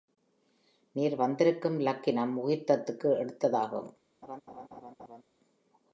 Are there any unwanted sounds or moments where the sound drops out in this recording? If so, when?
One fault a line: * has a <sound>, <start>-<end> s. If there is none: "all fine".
* has a laugh, 4.2-5.2 s